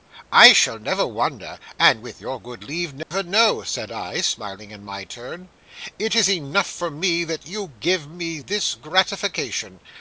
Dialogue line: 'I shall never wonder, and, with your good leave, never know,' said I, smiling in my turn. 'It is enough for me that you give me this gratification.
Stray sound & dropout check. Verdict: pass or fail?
fail